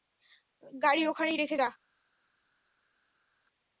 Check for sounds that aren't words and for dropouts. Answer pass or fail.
pass